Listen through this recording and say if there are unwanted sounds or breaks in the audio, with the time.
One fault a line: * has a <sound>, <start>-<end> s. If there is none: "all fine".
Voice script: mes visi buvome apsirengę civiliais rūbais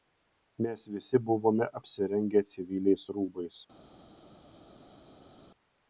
all fine